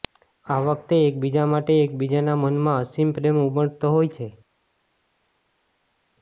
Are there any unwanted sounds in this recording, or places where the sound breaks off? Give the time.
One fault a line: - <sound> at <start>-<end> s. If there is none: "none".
none